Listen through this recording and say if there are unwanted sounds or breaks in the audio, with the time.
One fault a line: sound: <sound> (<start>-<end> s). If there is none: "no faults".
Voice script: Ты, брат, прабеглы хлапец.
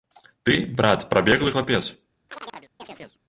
sound: chirp (2.3-3.2 s)